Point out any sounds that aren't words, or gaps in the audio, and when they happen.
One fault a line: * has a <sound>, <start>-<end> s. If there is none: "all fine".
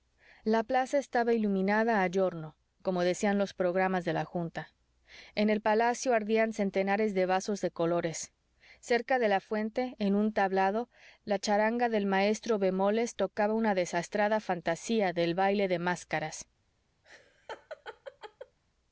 * has a laugh, 17.0-18.6 s